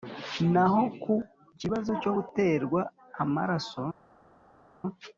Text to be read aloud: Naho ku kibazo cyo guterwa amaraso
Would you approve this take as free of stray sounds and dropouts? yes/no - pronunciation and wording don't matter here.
yes